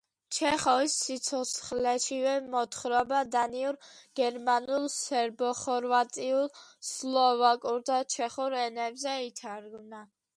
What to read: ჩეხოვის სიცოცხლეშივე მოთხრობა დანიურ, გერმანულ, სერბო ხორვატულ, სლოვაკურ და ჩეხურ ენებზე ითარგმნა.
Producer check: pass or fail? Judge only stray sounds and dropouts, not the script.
pass